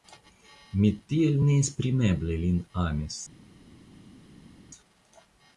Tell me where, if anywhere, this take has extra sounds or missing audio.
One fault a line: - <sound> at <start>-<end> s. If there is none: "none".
none